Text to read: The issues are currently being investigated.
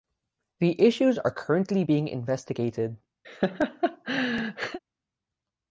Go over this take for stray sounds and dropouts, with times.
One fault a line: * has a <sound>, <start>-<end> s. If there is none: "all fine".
* has a laugh, 3.2-4.8 s